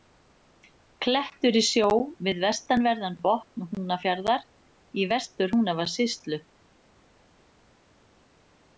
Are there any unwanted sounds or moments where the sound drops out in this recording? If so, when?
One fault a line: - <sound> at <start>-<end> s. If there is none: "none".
none